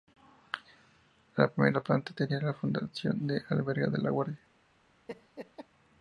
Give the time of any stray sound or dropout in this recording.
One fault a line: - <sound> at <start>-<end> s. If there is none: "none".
- laugh at 5.1-5.7 s